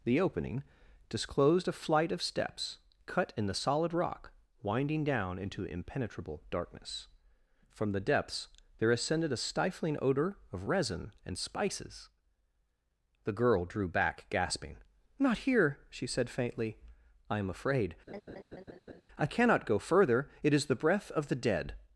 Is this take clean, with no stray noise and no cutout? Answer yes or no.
no